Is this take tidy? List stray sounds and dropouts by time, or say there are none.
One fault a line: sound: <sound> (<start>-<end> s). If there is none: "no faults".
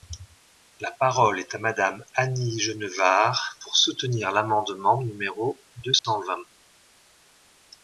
sound: dropout (6.0-6.0 s)